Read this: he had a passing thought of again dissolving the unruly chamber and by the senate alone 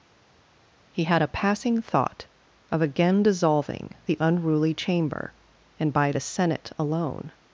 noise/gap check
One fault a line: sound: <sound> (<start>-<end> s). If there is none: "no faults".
no faults